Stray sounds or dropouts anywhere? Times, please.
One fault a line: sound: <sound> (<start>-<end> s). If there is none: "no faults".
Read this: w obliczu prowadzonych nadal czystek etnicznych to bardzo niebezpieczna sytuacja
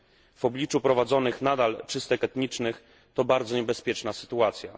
no faults